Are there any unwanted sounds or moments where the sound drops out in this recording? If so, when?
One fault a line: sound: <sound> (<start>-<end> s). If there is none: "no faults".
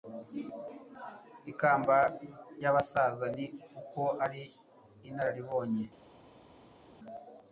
no faults